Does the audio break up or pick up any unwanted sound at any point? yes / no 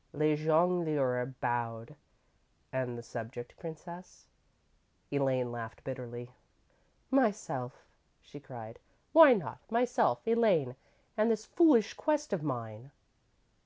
no